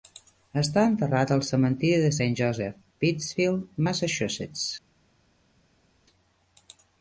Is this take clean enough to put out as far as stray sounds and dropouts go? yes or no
yes